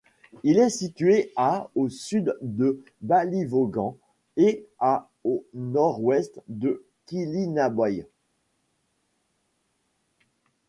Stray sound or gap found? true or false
false